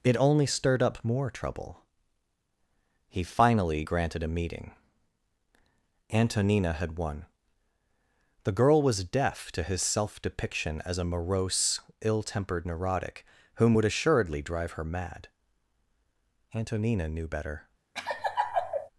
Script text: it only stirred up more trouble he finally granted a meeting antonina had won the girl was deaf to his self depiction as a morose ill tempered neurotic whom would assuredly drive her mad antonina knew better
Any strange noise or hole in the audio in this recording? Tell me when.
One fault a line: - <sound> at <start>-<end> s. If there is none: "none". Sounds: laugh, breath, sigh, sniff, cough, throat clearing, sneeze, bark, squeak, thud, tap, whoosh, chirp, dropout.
- laugh at 17.9-18.9 s